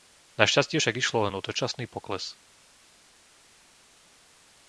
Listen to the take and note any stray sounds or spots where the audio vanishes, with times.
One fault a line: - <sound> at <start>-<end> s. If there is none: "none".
none